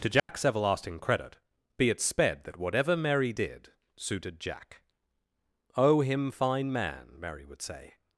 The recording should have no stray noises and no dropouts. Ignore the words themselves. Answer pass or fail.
fail